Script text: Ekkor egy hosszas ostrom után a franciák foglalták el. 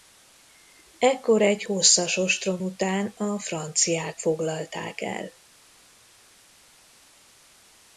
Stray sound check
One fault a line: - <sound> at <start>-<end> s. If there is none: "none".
none